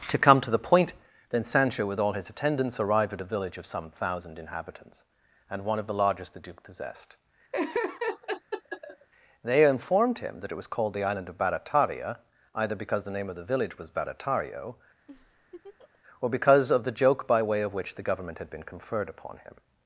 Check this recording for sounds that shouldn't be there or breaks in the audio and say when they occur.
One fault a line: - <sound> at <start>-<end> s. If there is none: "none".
- laugh at 7.5-9.1 s
- laugh at 15.1-16.0 s